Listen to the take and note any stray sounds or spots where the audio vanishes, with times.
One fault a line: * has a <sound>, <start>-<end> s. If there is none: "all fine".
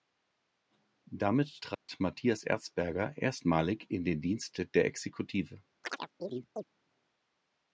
* has a dropout, 1.7-1.9 s
* has a chirp, 5.8-6.6 s